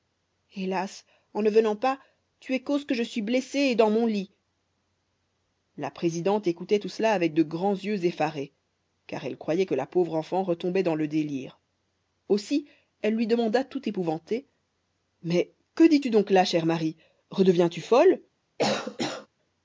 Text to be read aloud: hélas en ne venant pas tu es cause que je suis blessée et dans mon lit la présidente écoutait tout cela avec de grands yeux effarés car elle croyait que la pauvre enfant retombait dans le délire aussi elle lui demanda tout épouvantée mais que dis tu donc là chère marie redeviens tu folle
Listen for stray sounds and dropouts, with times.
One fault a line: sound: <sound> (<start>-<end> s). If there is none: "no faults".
sound: cough (18.6-19.3 s)